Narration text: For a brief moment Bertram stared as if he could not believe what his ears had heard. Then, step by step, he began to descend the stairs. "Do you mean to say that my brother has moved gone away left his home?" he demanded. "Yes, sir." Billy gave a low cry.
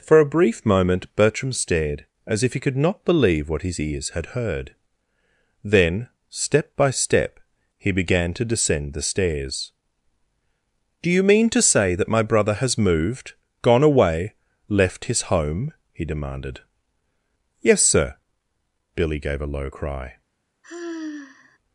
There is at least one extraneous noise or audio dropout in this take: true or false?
true